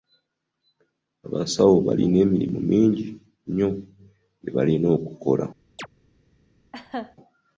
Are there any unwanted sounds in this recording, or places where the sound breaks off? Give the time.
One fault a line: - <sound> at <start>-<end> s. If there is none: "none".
- chirp at 5.8-5.9 s
- laugh at 6.7-7.2 s